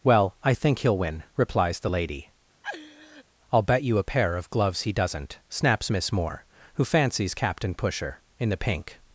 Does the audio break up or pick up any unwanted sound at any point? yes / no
yes